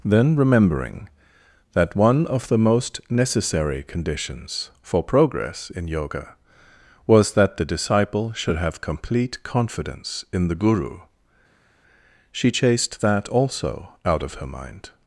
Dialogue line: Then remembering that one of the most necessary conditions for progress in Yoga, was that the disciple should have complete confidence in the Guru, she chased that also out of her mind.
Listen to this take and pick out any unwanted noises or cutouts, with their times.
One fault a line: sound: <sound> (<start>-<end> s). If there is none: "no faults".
no faults